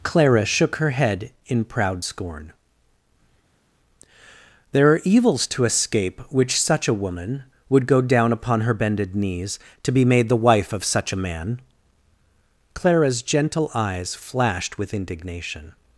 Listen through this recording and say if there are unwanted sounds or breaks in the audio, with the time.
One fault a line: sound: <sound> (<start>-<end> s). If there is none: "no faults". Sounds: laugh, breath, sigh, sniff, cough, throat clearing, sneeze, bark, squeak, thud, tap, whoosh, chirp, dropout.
no faults